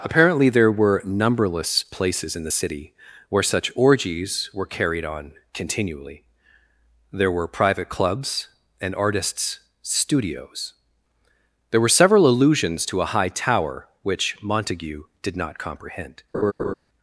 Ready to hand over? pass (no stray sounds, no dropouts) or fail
fail